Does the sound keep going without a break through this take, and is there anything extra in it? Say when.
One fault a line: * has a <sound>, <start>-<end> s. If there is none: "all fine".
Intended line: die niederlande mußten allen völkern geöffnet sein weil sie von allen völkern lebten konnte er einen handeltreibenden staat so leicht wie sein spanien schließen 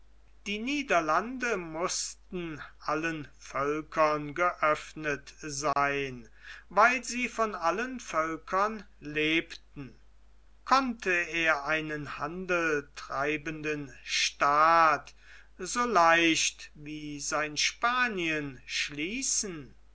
* has a dropout, 5.7-5.8 s